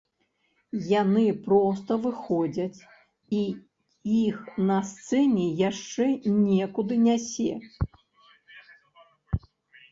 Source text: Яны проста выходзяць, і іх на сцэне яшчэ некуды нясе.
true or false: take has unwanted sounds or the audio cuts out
false